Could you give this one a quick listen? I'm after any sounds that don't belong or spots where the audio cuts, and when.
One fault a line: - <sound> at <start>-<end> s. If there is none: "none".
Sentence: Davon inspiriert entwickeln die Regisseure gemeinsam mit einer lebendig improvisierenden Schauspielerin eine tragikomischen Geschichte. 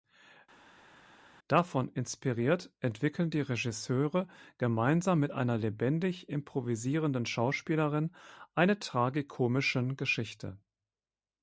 none